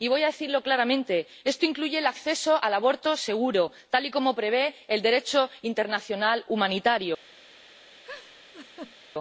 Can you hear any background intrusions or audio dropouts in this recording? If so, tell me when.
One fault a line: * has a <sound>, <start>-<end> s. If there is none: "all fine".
* has a laugh, 8.0-8.9 s